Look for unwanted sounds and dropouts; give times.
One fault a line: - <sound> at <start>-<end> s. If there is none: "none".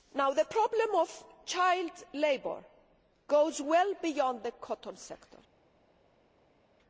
none